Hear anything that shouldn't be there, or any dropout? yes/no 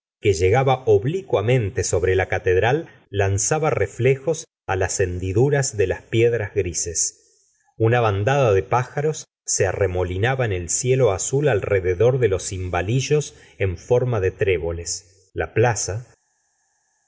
no